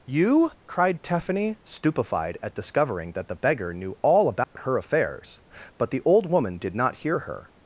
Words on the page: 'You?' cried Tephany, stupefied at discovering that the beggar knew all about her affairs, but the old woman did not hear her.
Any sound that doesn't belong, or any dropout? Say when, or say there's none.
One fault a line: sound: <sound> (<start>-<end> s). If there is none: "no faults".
sound: dropout (4.4-4.6 s)